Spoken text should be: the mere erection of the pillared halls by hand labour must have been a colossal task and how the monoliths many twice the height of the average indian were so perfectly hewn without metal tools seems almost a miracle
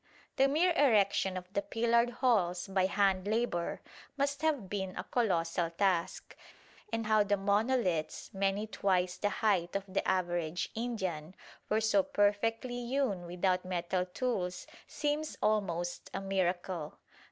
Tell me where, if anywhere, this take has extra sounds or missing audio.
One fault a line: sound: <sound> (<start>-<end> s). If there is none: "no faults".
no faults